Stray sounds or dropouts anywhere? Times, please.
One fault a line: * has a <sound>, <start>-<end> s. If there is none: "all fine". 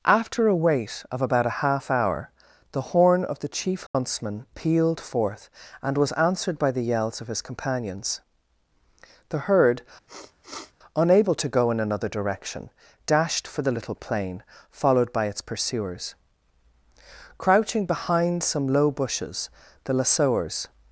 * has a dropout, 3.9-3.9 s
* has a sniff, 10.1-10.7 s